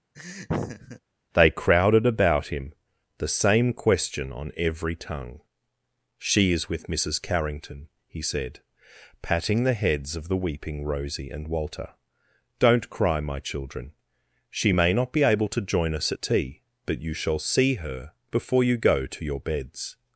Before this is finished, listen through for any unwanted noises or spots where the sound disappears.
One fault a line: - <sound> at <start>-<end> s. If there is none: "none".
- laugh at 0.1-1.0 s